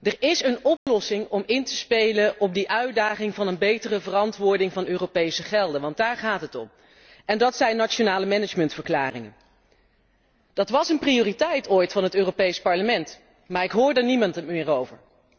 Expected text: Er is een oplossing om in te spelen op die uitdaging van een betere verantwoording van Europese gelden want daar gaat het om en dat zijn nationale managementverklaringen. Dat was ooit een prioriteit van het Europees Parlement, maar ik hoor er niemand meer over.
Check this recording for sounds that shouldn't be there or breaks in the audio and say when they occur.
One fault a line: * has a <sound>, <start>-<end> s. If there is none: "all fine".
* has a dropout, 0.8-0.9 s